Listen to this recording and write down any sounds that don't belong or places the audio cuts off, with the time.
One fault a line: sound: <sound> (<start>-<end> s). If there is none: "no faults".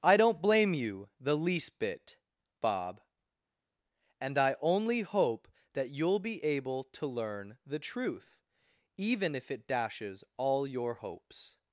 no faults